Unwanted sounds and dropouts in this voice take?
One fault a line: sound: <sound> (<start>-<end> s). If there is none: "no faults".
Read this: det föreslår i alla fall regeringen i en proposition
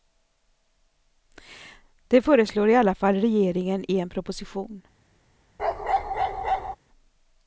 sound: bark (5.6-6.8 s)